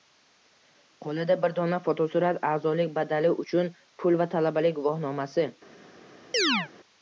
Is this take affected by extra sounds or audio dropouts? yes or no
yes